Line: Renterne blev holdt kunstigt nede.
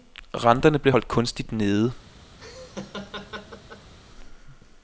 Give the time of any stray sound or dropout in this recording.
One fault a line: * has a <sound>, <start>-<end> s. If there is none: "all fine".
* has a laugh, 2.4-3.9 s